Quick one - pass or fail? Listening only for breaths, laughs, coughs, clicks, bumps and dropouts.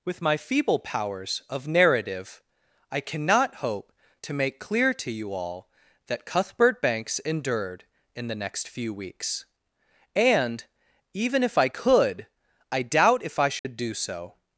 fail